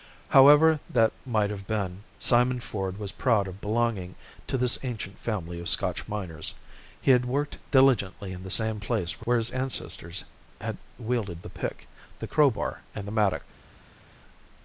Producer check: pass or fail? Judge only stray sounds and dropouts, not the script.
pass